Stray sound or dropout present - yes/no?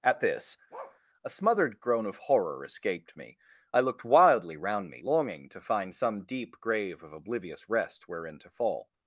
yes